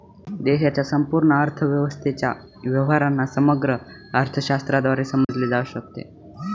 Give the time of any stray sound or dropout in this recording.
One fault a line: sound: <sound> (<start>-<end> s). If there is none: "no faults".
sound: dropout (5.2-5.3 s)